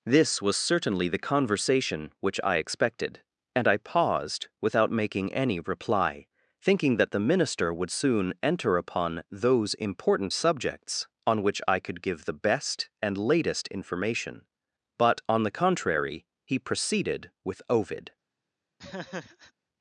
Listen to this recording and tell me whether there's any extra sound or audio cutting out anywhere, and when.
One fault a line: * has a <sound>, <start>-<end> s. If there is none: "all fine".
* has a laugh, 18.8-19.5 s